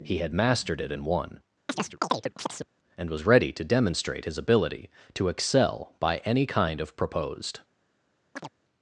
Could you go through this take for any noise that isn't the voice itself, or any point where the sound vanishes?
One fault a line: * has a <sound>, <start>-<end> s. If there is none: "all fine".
* has a chirp, 1.7-2.7 s
* has a chirp, 8.4-8.5 s